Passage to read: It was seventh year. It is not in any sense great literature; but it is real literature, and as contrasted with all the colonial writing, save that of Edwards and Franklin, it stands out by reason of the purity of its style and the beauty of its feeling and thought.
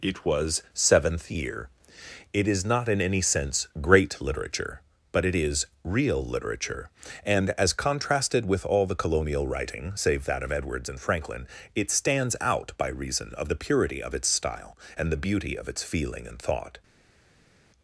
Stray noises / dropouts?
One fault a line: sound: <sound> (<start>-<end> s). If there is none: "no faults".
no faults